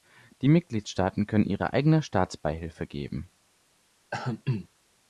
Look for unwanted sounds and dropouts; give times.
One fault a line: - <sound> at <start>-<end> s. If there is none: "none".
- throat clearing at 4.1-4.7 s